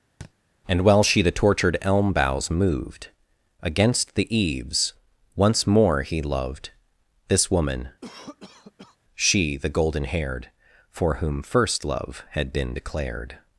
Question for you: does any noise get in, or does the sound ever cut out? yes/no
yes